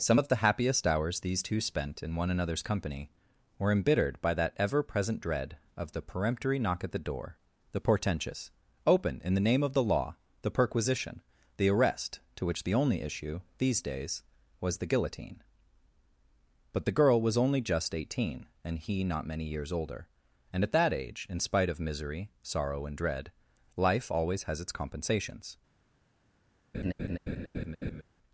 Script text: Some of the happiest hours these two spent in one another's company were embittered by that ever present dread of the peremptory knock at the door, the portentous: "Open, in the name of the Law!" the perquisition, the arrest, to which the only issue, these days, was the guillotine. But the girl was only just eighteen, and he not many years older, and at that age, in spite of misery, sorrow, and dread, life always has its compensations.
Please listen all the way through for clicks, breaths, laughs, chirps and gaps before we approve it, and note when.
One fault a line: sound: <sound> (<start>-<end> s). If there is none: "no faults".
sound: laugh (26.7-28.0 s)